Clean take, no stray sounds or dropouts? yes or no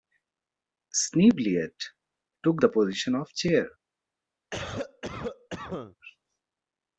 no